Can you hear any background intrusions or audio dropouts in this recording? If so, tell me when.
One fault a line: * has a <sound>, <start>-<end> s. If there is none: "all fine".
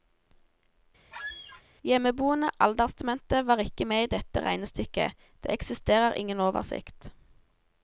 * has a squeak, 1.1-1.6 s